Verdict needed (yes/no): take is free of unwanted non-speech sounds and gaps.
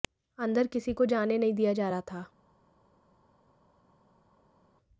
yes